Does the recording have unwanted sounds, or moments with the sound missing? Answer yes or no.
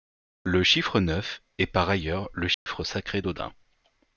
yes